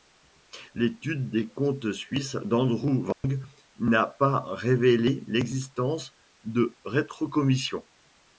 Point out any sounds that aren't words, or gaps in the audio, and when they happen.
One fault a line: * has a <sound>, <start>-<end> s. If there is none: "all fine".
* has a dropout, 3.1-3.2 s